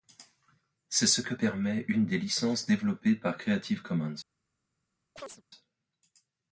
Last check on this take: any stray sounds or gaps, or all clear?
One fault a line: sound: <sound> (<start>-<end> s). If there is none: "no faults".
sound: chirp (5.2-5.4 s)